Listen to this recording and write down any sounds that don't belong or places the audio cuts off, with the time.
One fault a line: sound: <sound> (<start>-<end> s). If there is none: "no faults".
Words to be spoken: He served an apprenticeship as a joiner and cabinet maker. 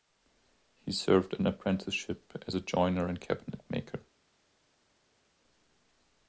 no faults